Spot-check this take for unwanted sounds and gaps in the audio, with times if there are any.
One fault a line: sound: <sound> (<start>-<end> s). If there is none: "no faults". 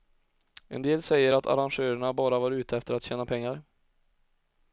no faults